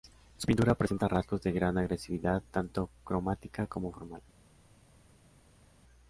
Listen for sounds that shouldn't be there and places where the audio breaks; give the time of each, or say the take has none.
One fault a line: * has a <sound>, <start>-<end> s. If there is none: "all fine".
all fine